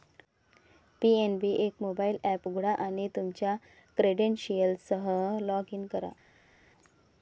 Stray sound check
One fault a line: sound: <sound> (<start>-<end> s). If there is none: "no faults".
no faults